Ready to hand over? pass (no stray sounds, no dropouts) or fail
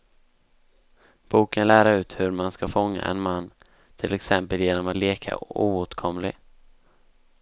pass